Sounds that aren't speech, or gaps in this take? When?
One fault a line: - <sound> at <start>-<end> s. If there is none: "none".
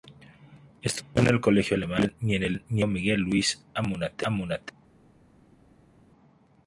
none